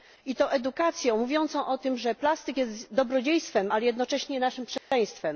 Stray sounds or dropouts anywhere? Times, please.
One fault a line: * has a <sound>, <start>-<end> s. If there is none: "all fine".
* has a dropout, 4.8-4.9 s